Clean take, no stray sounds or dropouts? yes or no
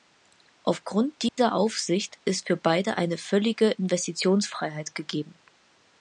no